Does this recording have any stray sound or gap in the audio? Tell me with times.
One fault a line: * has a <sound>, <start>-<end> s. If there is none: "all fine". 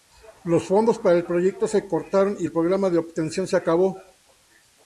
all fine